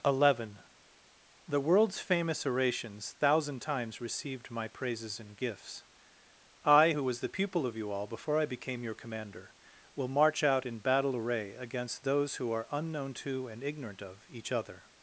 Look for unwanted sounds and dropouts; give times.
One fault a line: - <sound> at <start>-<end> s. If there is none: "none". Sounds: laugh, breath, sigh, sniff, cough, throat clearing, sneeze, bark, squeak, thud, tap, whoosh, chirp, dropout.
none